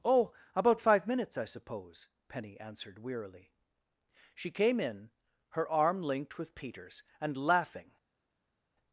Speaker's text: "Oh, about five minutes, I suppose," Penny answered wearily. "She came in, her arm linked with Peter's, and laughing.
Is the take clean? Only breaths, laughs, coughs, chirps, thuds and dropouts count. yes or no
yes